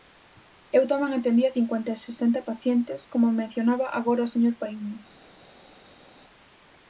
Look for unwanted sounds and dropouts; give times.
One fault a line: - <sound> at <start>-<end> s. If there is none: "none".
none